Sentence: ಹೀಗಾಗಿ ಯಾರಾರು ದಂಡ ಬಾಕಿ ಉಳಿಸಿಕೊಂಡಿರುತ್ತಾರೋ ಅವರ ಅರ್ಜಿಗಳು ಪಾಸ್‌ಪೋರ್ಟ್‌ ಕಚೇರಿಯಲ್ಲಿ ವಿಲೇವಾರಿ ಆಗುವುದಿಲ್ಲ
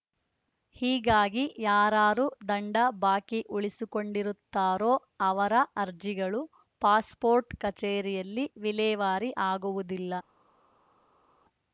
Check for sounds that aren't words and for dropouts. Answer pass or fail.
pass